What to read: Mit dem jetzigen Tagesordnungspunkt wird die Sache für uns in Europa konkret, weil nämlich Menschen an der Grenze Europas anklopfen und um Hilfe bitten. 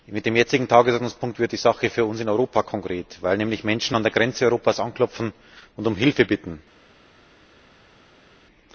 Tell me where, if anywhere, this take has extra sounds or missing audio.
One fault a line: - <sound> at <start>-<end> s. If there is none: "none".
none